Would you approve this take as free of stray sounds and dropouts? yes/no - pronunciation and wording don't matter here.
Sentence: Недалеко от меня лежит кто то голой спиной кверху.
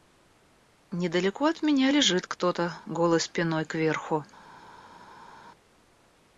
yes